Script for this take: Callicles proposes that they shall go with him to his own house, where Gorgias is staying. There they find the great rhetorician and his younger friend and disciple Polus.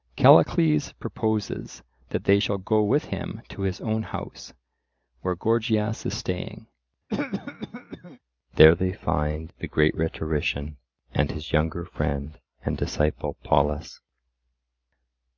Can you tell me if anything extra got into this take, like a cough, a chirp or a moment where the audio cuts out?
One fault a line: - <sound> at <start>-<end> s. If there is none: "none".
- cough at 7.1-8.2 s